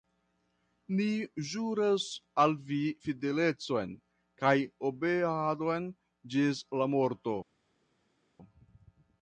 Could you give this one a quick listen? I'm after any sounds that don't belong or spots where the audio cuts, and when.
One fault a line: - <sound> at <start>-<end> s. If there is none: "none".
none